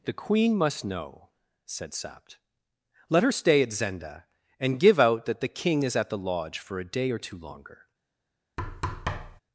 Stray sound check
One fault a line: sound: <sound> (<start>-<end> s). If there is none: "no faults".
sound: thud (8.6-9.4 s)